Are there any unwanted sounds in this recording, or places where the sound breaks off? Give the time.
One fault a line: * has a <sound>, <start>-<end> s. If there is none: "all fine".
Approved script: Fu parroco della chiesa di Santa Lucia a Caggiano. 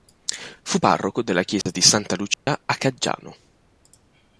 * has a dropout, 1.6-1.7 s
* has a dropout, 2.3-2.5 s